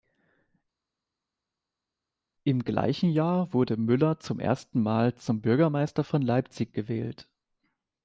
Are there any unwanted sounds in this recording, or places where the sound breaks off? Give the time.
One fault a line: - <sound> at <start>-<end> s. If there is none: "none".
none